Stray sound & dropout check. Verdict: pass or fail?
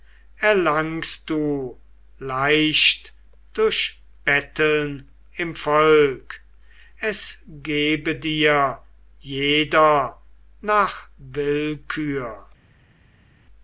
pass